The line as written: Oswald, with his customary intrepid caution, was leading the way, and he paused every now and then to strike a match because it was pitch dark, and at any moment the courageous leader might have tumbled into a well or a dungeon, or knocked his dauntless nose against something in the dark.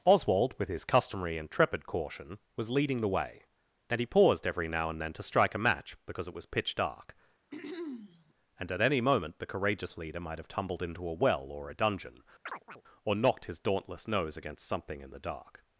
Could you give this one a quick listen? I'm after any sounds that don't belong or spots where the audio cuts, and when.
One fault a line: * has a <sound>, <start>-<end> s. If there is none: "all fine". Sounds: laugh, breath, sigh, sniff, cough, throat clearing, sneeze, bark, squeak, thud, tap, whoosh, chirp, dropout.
* has a throat clearing, 7.5-8.3 s
* has a chirp, 12.5-12.8 s